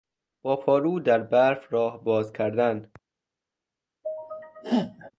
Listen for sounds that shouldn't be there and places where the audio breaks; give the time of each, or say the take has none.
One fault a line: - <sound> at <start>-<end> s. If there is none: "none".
- sneeze at 4.0-5.1 s